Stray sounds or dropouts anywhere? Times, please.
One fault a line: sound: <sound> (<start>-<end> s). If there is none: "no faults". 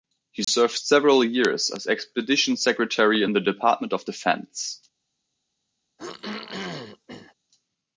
sound: dropout (0.4-0.5 s)
sound: throat clearing (6.0-7.3 s)